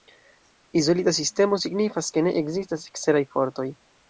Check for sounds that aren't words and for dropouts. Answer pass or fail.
pass